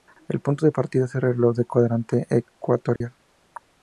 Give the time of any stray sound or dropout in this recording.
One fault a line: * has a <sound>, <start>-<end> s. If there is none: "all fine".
* has a dropout, 3.0-3.0 s